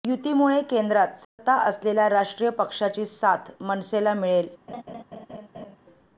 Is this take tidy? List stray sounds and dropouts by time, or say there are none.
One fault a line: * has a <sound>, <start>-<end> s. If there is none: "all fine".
* has a dropout, 1.2-1.4 s
* has a laugh, 4.7-5.8 s